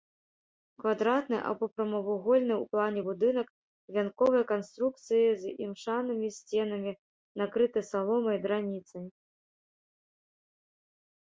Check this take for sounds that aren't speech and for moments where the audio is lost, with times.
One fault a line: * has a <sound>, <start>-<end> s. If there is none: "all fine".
all fine